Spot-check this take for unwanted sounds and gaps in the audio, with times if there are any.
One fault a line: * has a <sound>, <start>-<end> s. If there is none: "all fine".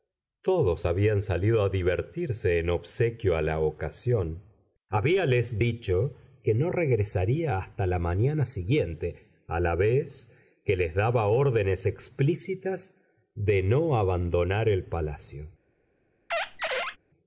* has a squeak, 16.3-17.0 s